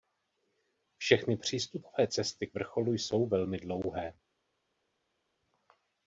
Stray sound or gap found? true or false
false